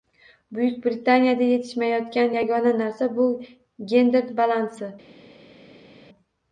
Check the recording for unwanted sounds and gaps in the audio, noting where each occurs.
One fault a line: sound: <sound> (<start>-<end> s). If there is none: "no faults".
no faults